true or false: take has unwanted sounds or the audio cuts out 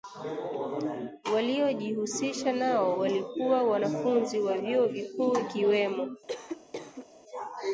true